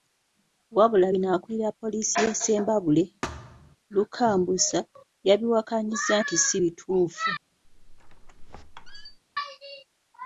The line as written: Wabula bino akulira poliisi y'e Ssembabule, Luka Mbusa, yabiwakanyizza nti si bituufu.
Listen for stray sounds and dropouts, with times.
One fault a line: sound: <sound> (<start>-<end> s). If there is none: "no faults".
sound: thud (3.2-3.8 s)
sound: squeak (7.6-9.2 s)